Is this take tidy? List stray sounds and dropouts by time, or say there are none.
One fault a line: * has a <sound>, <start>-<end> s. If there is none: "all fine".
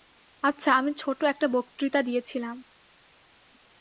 all fine